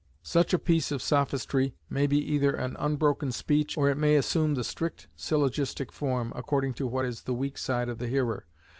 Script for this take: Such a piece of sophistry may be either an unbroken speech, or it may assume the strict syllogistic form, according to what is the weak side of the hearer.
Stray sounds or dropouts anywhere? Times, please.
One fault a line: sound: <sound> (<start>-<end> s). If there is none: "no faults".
no faults